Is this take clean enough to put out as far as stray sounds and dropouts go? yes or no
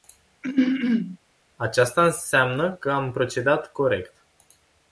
no